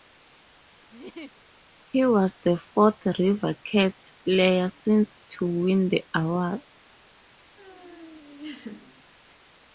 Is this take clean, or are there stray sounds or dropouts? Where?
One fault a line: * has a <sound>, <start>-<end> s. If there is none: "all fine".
* has a laugh, 0.9-1.4 s
* has a laugh, 7.6-9.0 s